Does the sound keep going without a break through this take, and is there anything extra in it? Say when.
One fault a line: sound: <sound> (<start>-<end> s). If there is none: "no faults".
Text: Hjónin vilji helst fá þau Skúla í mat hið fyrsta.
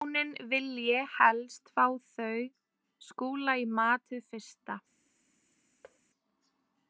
sound: thud (5.8-6.0 s)